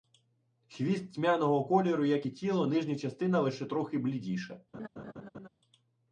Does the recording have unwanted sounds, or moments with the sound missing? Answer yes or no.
yes